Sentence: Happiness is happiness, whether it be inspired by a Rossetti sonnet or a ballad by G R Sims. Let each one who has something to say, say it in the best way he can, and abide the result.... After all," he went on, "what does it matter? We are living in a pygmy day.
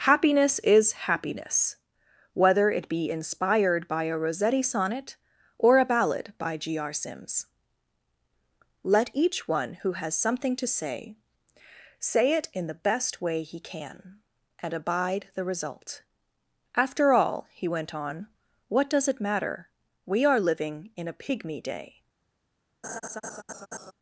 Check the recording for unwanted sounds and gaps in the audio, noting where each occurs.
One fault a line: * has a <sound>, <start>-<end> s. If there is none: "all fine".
* has a laugh, 22.8-23.9 s